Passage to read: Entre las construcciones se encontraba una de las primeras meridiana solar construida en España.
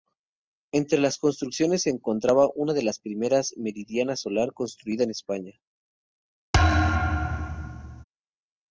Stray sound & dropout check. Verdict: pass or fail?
fail